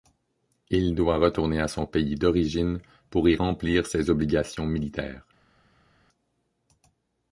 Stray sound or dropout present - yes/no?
no